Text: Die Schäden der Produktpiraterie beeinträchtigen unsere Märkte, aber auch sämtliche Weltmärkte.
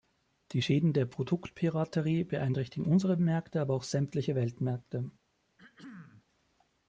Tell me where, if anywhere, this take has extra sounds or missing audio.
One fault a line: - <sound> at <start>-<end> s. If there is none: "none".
- throat clearing at 5.6-6.3 s